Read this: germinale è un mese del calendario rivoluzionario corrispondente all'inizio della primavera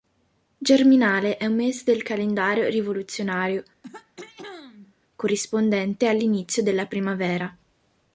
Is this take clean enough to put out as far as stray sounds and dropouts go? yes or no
no